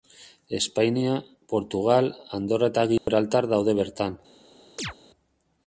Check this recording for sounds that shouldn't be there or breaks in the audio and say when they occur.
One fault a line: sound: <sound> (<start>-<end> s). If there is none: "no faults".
sound: dropout (3.0-3.1 s)
sound: chirp (4.8-4.9 s)